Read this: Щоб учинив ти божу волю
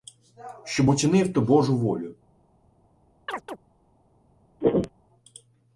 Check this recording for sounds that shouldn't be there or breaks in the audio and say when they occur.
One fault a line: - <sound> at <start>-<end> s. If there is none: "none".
- chirp at 3.3-3.6 s
- throat clearing at 4.6-4.9 s